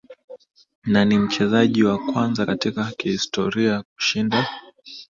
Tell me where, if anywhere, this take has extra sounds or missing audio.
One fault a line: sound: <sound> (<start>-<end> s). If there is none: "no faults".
no faults